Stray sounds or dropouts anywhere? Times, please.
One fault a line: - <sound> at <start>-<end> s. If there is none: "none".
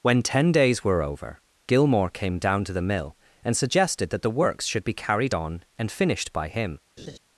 - laugh at 7.0-7.2 s